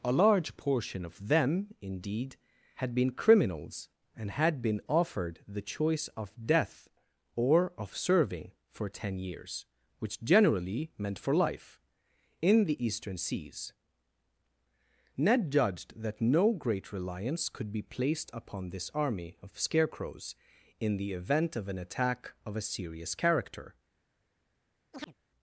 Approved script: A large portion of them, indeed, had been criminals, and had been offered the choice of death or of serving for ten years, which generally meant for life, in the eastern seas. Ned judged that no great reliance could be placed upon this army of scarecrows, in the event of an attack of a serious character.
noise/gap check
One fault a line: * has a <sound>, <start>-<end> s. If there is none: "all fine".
* has a chirp, 24.9-25.1 s